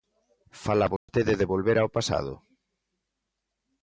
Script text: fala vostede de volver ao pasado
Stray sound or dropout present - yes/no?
yes